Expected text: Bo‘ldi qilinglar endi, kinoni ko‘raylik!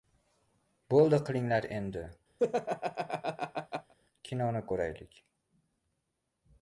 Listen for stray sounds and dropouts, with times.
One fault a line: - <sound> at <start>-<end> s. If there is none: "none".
- laugh at 2.4-3.9 s